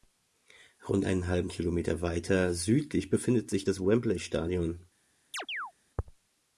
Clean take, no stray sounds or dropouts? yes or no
no